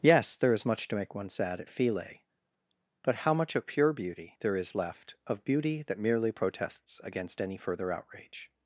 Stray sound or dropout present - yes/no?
no